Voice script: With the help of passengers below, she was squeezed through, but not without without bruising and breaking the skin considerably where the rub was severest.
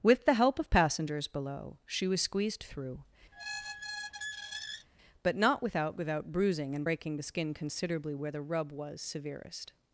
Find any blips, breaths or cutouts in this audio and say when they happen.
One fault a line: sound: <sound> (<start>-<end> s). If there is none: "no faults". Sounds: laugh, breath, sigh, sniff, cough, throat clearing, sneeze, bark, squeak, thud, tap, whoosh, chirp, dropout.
sound: squeak (3.3-4.9 s)